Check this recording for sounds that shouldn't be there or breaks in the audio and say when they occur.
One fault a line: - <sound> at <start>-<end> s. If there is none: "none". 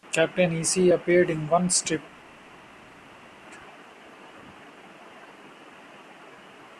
none